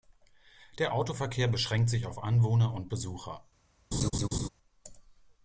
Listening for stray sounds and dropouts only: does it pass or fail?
fail